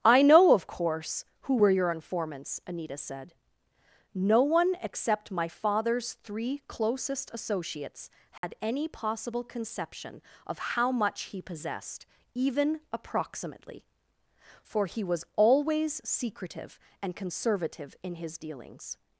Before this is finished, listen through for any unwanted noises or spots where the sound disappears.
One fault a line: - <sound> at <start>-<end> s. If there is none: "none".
- dropout at 8.4-8.4 s